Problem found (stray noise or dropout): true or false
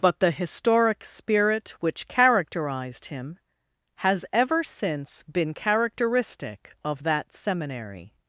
false